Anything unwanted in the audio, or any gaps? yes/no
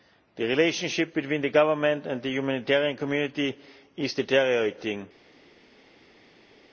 no